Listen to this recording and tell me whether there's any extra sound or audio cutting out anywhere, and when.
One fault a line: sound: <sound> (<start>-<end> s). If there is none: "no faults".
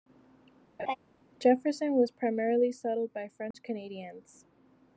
sound: laugh (0.8-1.0 s)
sound: dropout (3.5-3.5 s)